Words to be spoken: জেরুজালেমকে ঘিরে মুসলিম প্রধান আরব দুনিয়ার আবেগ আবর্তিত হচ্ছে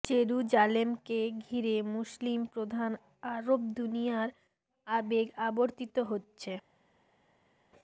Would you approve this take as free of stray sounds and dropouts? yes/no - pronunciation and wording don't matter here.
yes